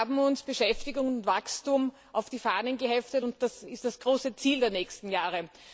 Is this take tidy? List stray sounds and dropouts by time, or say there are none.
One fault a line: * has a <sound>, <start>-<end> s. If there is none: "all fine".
all fine